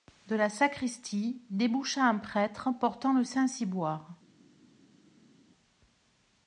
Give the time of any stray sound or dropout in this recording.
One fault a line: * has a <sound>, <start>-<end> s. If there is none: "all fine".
all fine